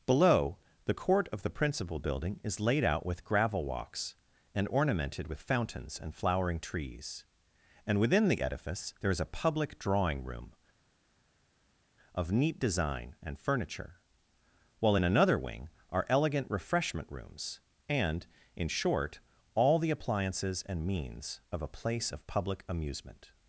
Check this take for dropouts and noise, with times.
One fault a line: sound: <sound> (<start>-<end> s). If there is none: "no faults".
no faults